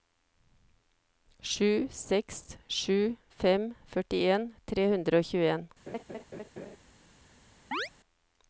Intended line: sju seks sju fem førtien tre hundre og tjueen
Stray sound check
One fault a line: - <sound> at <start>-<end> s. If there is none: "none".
- laugh at 5.9-6.8 s
- chirp at 7.7-7.9 s